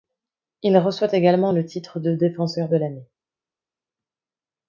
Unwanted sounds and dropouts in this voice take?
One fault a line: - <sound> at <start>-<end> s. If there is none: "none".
none